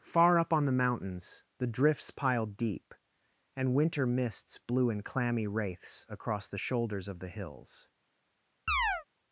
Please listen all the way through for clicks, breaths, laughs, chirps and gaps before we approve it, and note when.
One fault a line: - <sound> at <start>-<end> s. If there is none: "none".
- chirp at 8.7-9.0 s